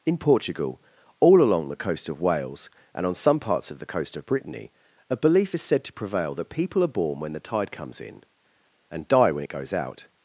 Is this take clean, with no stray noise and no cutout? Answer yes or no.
yes